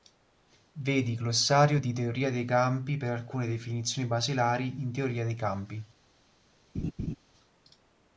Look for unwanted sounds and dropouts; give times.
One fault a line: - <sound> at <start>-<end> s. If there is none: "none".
- laugh at 6.7-7.2 s